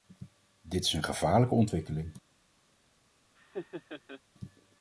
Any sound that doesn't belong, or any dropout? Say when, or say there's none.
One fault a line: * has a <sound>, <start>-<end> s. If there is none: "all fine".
* has a laugh, 3.3-4.2 s